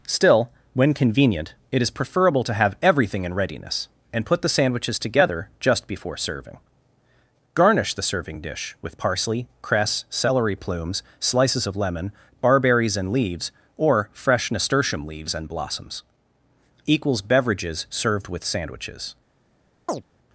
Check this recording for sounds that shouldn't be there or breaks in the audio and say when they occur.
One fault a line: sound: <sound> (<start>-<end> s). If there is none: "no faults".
sound: chirp (19.9-20.0 s)